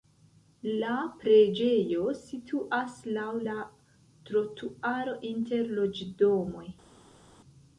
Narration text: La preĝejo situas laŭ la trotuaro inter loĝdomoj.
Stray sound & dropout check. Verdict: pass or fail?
pass